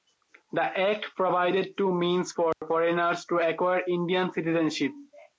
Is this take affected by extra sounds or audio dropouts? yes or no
yes